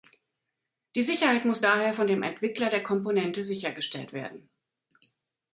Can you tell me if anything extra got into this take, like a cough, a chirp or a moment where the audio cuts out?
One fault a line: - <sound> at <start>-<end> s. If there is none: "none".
none